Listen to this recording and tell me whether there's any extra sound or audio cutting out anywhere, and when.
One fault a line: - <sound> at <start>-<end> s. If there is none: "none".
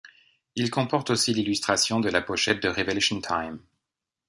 none